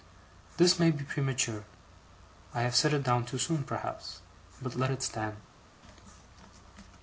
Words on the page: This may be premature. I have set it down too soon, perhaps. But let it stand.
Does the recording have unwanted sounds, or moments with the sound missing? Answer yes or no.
no